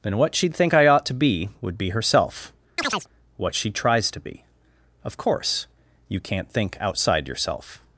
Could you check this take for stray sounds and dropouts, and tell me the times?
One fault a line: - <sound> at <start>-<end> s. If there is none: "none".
- chirp at 2.8-3.1 s